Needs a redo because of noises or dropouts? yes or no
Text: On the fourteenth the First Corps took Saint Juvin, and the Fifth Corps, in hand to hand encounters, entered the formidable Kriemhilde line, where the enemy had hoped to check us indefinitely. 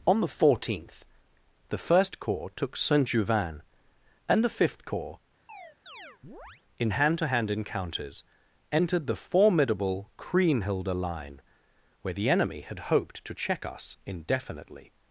yes